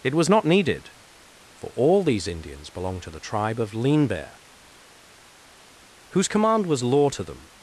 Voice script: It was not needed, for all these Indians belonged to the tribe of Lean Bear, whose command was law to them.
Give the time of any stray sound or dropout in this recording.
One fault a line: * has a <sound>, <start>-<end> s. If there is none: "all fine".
all fine